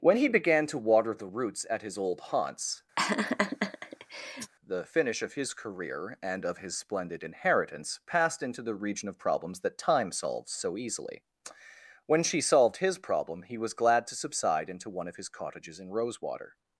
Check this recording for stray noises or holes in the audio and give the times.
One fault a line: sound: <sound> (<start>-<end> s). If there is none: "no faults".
sound: laugh (3.0-4.5 s)